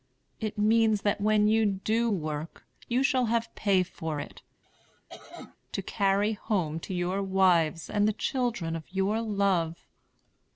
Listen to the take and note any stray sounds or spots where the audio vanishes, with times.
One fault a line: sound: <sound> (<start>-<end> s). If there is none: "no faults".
sound: cough (4.6-5.6 s)